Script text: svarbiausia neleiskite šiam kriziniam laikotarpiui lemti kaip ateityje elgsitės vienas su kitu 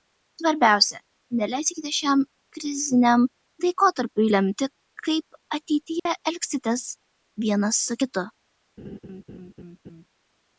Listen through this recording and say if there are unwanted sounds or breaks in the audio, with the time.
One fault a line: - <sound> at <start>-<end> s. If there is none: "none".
- dropout at 6.0-6.1 s
- laugh at 8.8-10.1 s